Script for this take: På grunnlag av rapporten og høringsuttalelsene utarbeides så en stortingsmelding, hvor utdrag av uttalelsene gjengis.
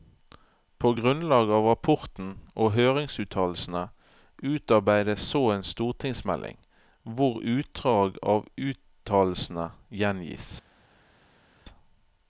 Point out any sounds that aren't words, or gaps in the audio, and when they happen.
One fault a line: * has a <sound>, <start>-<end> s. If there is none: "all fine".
all fine